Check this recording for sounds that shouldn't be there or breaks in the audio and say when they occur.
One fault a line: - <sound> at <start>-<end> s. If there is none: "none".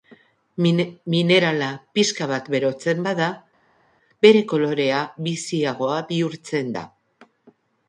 none